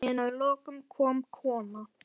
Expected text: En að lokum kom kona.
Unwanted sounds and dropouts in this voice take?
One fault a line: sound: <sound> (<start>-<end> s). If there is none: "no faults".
no faults